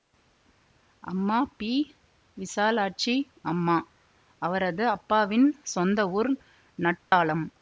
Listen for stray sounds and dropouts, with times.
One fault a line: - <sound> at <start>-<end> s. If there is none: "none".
- dropout at 7.0-7.1 s